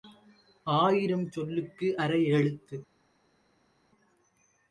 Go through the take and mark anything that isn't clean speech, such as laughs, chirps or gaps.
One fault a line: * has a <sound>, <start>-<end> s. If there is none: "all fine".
all fine